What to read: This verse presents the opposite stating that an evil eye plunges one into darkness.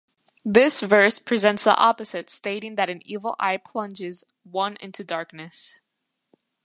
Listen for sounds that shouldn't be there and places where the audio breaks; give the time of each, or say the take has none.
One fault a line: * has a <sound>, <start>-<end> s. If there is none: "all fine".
all fine